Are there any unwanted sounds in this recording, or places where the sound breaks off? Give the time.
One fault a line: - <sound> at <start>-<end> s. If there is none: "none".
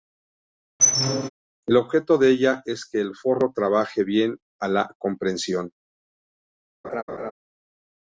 - squeak at 0.8-1.3 s
- laugh at 6.8-7.3 s